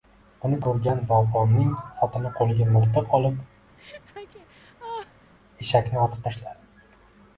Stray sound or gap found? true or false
true